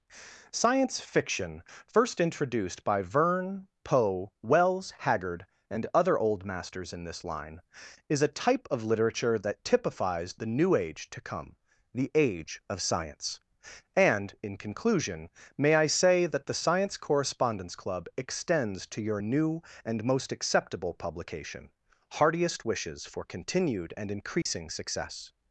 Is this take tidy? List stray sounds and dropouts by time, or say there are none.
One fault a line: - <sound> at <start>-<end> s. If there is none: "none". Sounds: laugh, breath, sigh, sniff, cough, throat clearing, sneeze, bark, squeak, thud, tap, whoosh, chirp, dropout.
- dropout at 24.4-24.5 s